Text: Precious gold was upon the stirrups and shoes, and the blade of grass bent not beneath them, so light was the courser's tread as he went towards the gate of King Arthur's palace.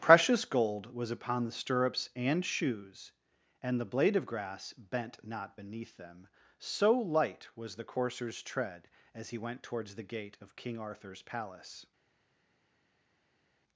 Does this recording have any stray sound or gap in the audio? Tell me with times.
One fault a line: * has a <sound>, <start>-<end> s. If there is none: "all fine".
all fine